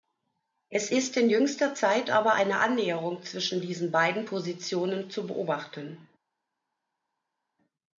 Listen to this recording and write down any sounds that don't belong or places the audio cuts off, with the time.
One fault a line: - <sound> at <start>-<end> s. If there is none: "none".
none